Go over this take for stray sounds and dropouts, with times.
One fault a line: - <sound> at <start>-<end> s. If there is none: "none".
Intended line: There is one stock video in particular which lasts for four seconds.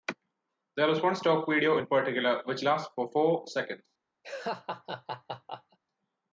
- laugh at 4.2-5.8 s